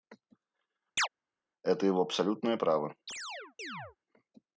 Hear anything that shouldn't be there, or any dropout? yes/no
yes